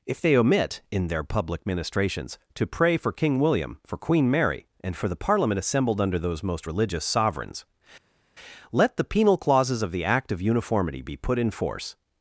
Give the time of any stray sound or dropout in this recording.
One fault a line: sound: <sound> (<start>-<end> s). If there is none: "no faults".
no faults